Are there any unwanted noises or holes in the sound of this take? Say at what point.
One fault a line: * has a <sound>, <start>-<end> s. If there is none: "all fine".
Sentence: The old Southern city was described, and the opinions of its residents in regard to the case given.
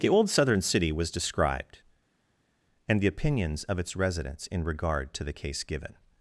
all fine